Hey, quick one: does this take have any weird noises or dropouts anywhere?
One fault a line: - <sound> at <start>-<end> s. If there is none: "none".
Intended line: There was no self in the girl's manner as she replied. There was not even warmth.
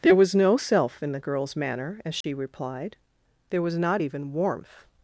- dropout at 2.2-2.2 s